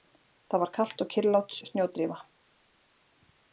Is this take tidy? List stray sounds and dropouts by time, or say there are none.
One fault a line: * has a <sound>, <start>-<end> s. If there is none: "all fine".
all fine